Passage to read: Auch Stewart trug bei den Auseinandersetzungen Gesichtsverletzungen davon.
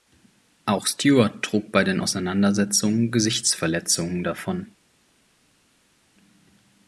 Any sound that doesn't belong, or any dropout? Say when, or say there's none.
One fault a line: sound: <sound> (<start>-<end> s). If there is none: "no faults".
no faults